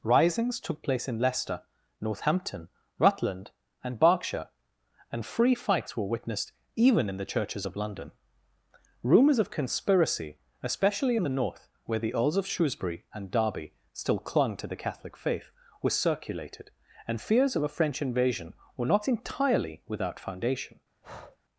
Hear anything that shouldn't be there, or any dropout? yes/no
yes